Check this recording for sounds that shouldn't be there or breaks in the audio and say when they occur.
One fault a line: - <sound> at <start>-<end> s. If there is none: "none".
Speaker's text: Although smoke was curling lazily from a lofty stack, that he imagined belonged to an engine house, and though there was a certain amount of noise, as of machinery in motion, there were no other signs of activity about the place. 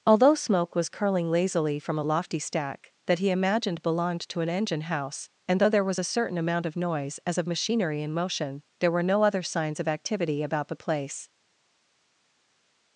none